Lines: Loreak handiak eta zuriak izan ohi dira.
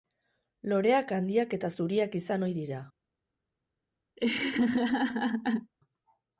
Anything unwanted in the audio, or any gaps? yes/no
yes